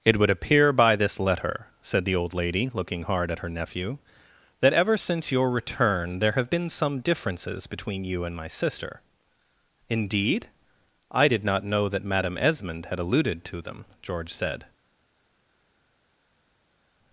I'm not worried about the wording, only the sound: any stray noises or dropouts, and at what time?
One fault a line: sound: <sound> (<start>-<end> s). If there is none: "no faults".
no faults